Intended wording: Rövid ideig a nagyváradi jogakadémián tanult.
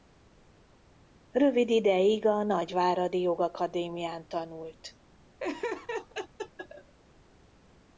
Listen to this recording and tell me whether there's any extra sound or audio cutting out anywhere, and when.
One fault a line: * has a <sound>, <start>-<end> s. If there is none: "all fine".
* has a laugh, 5.4-6.9 s